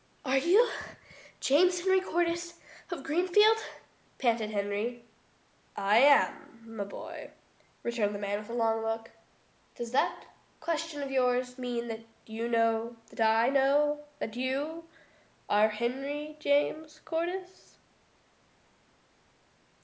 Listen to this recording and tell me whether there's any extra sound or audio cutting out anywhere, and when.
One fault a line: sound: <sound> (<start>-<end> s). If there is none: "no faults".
no faults